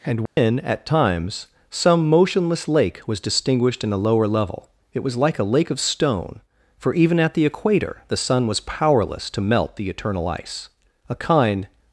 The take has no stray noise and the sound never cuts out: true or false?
false